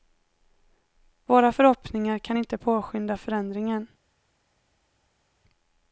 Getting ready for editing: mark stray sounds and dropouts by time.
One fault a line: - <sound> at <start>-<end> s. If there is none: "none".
none